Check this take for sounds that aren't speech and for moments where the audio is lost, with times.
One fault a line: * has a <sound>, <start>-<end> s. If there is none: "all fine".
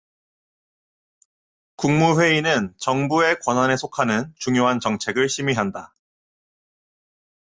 all fine